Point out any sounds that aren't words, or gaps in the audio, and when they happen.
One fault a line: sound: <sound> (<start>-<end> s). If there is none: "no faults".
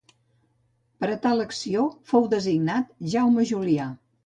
no faults